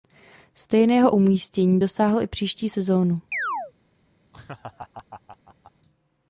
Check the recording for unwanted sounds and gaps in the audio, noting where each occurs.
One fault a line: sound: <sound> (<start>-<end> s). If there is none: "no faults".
sound: chirp (3.3-3.7 s)
sound: laugh (4.3-5.7 s)